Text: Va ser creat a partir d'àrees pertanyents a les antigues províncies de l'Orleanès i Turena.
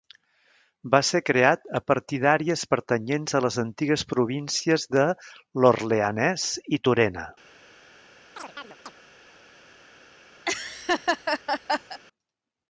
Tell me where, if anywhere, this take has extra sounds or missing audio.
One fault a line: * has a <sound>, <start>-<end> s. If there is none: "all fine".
* has a chirp, 8.4-8.9 s
* has a laugh, 10.4-12.0 s